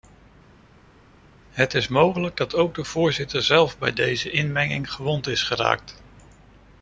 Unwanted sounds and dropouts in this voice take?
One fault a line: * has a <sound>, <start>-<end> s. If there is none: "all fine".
all fine